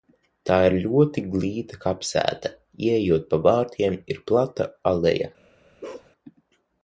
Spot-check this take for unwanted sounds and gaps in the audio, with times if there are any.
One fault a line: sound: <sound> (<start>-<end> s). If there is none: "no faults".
sound: bark (5.8-6.1 s)